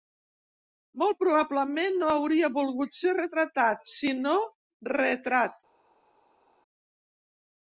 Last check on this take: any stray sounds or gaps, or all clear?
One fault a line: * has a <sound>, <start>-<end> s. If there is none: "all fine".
all fine